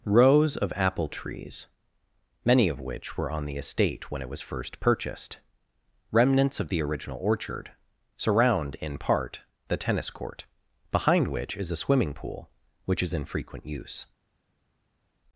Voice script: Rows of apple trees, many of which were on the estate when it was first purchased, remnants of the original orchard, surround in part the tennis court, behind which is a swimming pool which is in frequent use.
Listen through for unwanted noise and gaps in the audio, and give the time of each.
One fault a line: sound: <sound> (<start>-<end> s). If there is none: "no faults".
no faults